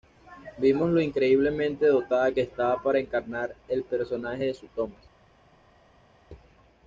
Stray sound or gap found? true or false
false